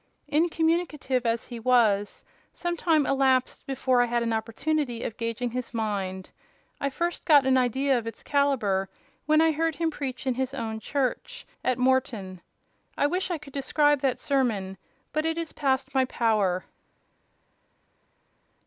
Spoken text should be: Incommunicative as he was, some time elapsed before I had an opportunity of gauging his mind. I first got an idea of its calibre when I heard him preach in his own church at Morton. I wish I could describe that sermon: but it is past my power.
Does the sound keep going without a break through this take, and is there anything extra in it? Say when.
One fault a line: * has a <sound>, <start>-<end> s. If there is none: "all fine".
all fine